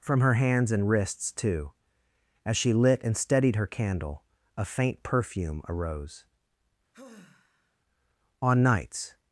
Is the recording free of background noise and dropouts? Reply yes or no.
no